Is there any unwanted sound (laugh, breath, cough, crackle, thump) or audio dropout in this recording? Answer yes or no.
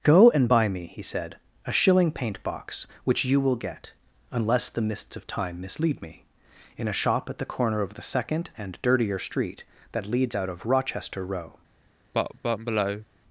yes